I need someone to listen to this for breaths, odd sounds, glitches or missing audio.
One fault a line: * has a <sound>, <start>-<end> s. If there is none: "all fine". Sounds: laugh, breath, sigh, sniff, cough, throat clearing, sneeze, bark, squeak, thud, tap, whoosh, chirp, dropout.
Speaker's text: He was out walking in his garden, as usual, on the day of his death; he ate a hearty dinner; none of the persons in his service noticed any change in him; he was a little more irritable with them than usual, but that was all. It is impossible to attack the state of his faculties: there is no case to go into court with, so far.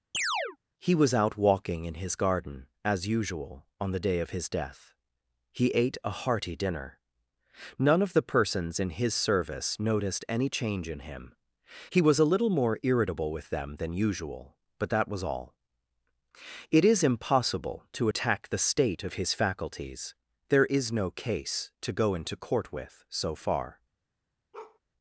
* has a chirp, 0.1-0.6 s
* has a bark, 24.5-24.8 s